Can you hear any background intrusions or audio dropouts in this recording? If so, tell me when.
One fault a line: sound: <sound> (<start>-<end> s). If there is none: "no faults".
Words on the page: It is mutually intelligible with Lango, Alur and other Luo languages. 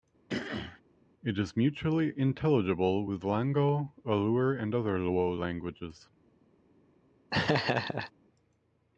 sound: throat clearing (0.3-0.8 s)
sound: laugh (7.3-8.1 s)